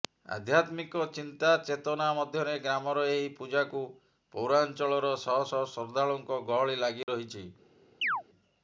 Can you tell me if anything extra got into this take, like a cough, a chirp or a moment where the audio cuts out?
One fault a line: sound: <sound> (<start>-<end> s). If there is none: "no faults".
sound: dropout (7.0-7.1 s)
sound: chirp (8.0-8.2 s)